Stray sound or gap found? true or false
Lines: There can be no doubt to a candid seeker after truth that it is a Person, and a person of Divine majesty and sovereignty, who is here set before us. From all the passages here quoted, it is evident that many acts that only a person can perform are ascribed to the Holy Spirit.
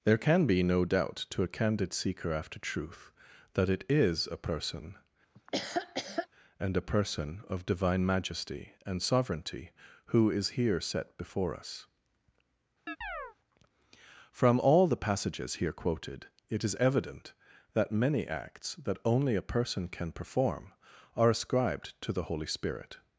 true